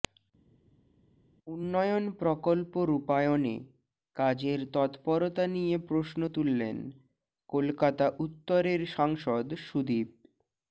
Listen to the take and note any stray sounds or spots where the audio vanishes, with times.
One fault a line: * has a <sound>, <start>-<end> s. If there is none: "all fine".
all fine